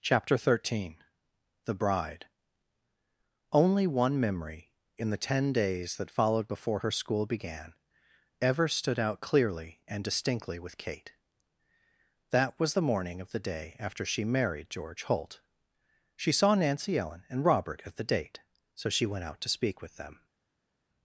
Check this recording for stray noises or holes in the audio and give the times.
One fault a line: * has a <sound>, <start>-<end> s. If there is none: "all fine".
all fine